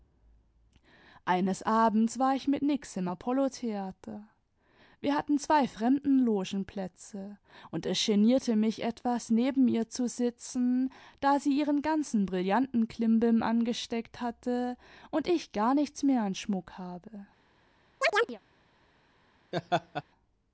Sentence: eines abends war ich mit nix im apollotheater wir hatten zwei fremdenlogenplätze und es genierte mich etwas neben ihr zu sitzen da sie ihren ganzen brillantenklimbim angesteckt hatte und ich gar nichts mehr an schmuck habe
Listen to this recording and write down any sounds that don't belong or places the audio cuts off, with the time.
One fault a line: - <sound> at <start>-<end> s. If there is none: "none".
- chirp at 18.0-18.4 s
- laugh at 19.5-20.0 s